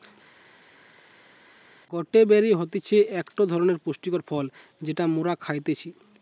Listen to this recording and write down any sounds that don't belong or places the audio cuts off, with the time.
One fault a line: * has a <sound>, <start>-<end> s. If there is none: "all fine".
all fine